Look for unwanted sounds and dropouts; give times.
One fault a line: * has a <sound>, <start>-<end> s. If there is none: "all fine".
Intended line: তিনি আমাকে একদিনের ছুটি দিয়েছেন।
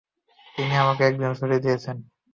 all fine